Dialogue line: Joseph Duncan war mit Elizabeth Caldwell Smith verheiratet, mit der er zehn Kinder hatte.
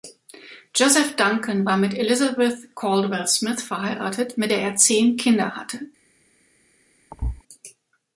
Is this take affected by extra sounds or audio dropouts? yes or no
yes